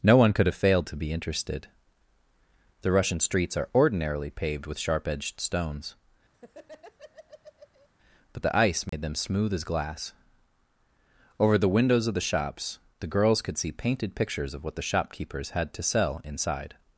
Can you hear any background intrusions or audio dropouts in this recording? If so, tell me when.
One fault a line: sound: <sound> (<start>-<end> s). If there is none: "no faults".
sound: laugh (6.3-7.9 s)
sound: dropout (8.9-8.9 s)